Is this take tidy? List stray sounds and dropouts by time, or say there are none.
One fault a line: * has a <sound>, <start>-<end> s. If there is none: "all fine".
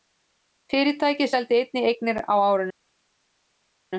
all fine